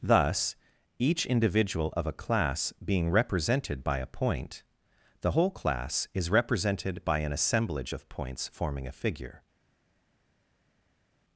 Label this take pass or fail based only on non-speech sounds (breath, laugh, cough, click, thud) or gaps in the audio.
pass